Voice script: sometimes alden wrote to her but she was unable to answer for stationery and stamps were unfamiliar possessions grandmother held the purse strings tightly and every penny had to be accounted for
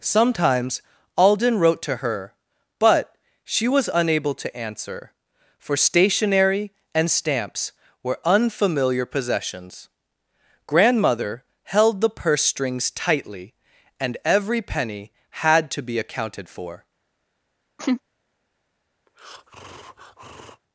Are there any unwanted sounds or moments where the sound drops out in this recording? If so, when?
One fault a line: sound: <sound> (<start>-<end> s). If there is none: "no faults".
sound: laugh (17.8-18.0 s)
sound: breath (19.1-20.6 s)